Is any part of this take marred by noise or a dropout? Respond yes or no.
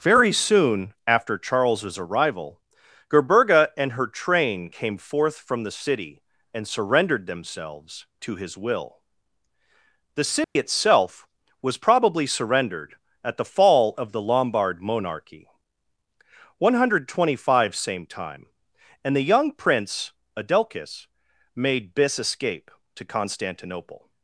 yes